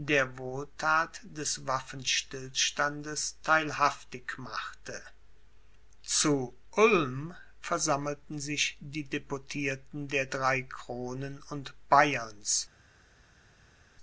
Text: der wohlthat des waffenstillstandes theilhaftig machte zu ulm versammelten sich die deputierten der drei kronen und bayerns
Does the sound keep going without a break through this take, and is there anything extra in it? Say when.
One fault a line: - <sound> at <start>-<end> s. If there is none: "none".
none